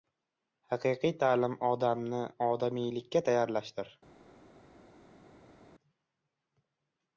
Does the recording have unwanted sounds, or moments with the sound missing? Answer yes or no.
no